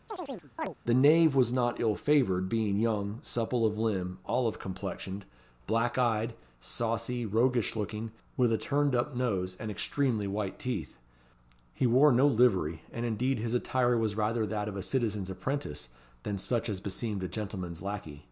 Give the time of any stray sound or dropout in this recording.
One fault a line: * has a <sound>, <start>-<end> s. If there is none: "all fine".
* has a chirp, 0.1-0.7 s